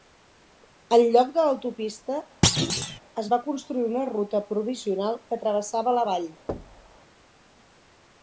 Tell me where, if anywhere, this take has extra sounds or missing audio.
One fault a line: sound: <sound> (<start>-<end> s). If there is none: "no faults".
sound: thud (2.4-3.0 s)
sound: thud (6.5-7.0 s)